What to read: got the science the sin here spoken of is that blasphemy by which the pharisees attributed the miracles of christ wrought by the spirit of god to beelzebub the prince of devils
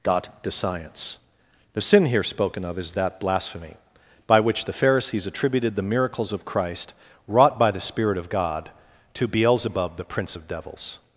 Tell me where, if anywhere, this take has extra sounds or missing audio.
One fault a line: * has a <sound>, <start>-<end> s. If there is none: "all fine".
all fine